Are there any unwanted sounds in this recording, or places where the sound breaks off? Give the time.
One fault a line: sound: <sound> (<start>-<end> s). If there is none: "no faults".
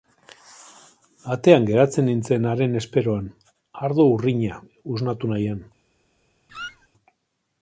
sound: squeak (6.5-6.9 s)